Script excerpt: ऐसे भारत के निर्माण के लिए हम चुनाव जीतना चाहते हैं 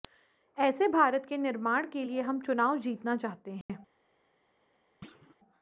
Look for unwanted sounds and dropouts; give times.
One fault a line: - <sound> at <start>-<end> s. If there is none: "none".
- dropout at 3.6-3.7 s
- thud at 5.0-5.4 s